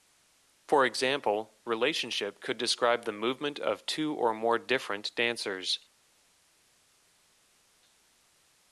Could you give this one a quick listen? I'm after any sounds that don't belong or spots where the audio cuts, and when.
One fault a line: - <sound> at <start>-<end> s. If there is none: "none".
none